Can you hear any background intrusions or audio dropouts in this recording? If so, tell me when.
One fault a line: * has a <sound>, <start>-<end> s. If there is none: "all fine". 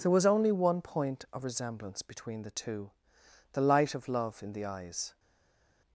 all fine